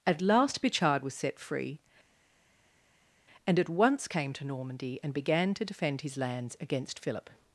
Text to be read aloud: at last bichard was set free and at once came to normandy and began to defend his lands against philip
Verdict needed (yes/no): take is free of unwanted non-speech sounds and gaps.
yes